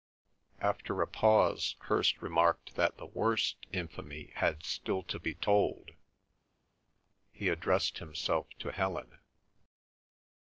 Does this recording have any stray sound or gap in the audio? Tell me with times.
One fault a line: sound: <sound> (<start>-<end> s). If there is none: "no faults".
no faults